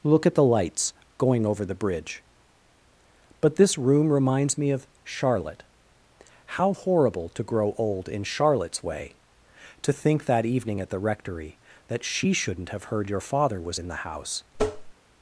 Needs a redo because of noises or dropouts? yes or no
yes